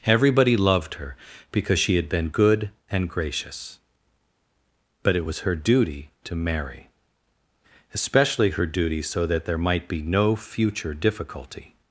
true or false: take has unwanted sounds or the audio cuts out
false